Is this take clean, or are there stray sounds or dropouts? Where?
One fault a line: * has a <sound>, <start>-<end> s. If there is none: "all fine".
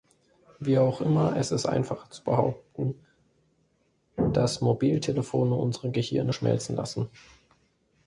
all fine